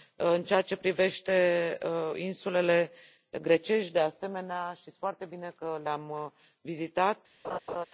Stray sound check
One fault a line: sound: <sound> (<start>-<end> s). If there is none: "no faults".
sound: laugh (7.4-7.9 s)